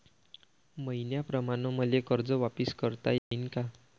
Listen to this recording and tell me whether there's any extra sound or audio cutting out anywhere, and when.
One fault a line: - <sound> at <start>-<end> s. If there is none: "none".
- dropout at 3.2-3.3 s